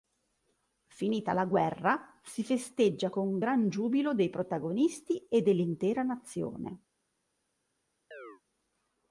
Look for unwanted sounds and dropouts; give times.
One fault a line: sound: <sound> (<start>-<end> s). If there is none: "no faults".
sound: chirp (8.1-8.4 s)